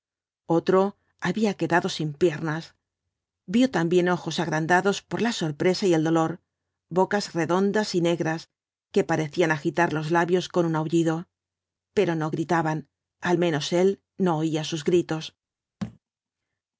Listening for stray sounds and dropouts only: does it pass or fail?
fail